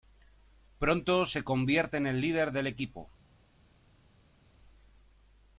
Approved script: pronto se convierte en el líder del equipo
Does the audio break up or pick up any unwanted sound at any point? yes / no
no